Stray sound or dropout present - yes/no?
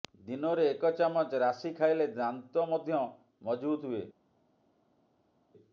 no